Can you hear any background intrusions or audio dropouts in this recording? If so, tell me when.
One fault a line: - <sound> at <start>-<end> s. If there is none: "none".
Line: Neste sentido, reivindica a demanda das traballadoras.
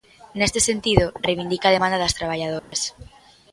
- dropout at 2.6-2.7 s